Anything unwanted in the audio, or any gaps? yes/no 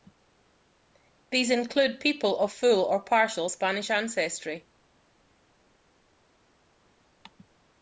no